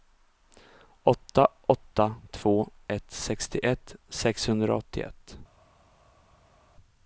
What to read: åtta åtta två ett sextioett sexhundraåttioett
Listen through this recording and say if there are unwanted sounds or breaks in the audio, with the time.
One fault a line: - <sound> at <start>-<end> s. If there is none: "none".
none